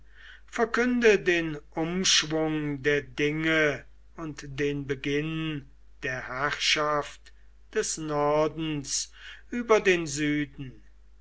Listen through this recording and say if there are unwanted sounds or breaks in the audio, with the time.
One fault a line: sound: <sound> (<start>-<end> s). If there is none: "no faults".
no faults